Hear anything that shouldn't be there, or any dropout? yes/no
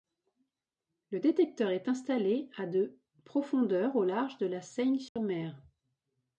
yes